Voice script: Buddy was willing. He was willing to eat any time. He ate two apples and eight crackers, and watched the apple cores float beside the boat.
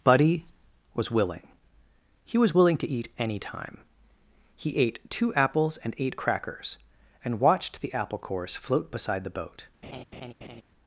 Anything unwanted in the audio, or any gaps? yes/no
yes